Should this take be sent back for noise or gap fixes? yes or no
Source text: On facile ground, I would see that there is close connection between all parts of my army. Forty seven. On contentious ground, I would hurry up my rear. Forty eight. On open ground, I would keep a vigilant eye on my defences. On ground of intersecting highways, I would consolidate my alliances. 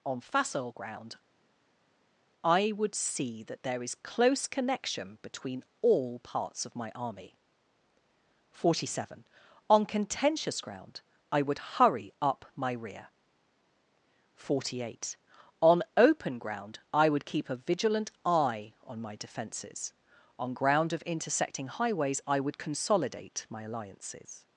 no